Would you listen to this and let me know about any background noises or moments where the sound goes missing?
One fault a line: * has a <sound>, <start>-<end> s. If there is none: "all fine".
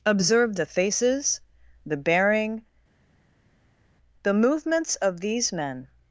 all fine